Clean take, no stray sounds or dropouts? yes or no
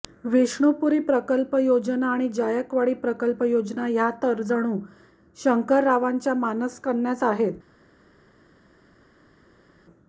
yes